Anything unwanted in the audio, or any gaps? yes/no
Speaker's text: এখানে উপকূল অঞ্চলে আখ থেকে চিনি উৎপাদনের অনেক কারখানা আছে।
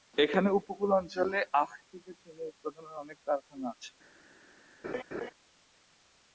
yes